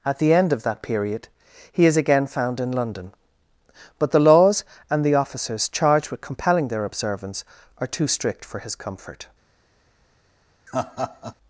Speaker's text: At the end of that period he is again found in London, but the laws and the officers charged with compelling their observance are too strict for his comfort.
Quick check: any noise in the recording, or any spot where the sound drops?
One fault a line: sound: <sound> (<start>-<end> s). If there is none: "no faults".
sound: laugh (10.7-11.3 s)